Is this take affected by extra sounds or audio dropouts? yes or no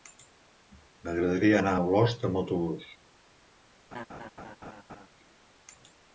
yes